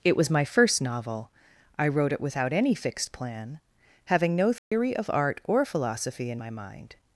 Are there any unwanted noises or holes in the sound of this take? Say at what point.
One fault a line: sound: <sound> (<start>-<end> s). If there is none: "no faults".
sound: dropout (4.6-4.7 s)